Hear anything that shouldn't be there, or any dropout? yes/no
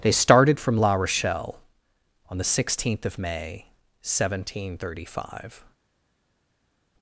no